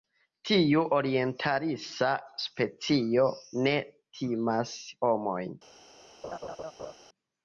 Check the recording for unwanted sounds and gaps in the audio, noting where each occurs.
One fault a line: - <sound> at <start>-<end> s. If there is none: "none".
- laugh at 6.2-6.9 s